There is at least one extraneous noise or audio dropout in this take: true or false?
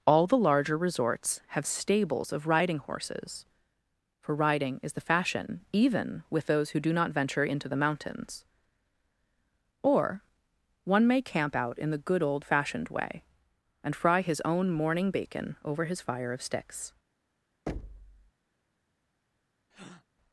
true